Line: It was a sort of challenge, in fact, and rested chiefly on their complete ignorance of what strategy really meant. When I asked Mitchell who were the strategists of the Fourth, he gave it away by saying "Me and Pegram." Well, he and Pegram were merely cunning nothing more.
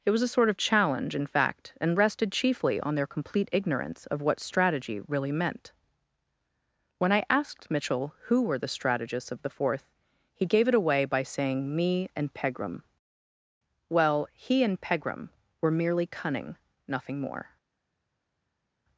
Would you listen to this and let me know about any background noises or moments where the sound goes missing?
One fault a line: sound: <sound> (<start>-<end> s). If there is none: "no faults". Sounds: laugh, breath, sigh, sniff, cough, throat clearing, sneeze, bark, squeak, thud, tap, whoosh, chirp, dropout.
no faults